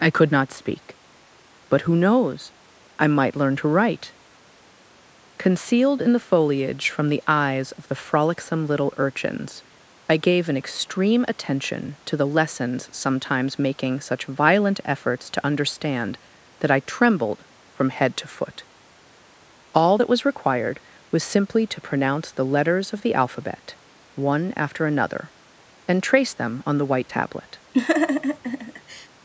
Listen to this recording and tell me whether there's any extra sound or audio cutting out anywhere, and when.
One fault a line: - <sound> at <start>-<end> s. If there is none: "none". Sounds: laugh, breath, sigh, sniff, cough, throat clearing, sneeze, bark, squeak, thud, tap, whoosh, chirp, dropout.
- laugh at 27.7-29.1 s